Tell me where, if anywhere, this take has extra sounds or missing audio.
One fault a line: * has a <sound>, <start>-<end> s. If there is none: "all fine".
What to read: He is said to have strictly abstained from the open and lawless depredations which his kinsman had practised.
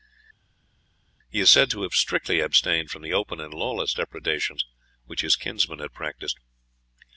all fine